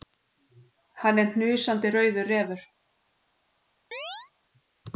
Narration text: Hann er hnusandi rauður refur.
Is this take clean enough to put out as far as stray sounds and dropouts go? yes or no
no